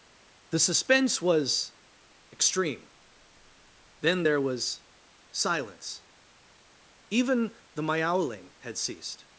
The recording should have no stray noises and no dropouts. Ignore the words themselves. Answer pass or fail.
pass